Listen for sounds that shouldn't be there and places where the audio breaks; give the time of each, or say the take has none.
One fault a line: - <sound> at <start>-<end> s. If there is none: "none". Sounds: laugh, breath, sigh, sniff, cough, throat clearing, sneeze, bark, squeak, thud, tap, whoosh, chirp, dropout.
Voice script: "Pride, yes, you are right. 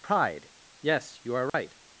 - dropout at 1.5-1.5 s